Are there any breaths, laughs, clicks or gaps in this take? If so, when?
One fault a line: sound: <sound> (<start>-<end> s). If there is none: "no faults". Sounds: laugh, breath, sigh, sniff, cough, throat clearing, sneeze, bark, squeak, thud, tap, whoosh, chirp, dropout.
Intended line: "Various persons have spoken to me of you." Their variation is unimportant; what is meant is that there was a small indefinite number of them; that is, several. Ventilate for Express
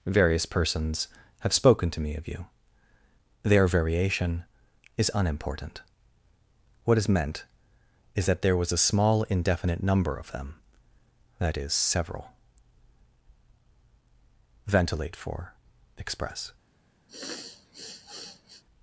sound: sniff (17.1-18.6 s)